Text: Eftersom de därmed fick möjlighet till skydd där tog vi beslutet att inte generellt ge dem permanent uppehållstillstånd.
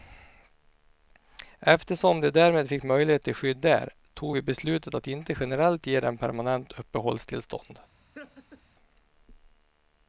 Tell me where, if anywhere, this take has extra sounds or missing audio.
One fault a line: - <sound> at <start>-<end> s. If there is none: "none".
- laugh at 8.1-8.6 s